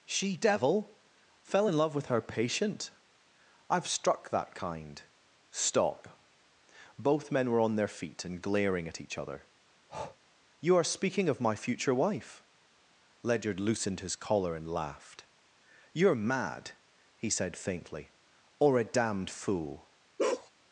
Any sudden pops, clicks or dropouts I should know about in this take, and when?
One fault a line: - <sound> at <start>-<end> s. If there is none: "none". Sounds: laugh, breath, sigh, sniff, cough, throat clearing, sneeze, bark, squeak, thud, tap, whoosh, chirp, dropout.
- breath at 9.9-10.2 s
- bark at 20.2-20.5 s